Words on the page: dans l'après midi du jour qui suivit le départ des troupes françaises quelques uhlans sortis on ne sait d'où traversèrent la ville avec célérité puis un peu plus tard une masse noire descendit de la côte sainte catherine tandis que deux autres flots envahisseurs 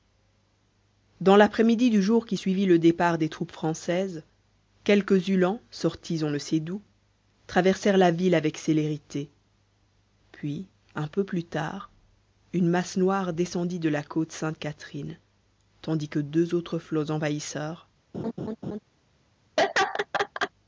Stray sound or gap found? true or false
true